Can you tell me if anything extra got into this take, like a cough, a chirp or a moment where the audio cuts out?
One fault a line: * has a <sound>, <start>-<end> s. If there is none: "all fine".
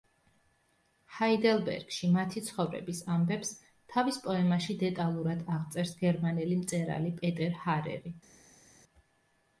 all fine